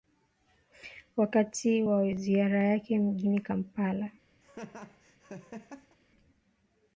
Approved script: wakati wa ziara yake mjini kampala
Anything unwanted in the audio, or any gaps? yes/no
yes